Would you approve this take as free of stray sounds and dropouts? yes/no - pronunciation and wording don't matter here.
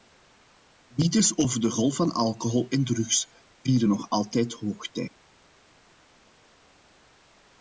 yes